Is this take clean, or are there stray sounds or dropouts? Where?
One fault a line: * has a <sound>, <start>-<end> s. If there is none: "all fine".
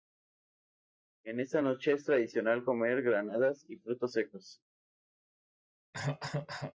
* has a cough, 5.9-6.7 s